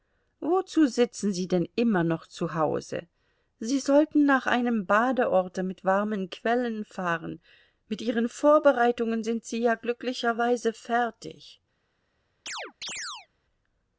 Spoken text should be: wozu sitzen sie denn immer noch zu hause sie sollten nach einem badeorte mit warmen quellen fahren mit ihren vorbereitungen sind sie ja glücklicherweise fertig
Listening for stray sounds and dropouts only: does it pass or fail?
fail